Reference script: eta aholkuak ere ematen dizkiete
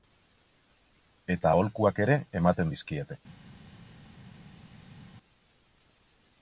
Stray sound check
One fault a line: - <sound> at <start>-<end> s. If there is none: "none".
none